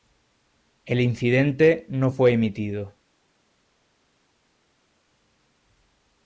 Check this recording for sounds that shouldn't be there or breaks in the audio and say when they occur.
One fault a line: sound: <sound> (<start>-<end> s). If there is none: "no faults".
no faults